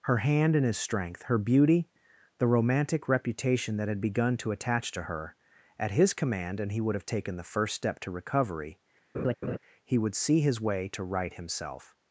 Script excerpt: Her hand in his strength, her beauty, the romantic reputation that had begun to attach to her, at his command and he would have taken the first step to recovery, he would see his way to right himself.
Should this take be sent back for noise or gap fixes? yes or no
yes